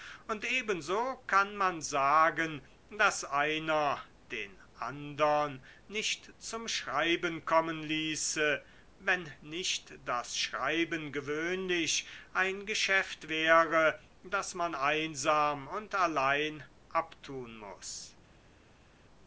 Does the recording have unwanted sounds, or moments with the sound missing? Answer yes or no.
no